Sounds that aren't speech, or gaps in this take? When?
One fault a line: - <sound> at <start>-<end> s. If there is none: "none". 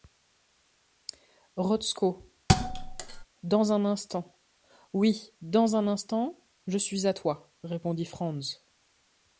- thud at 2.5-3.3 s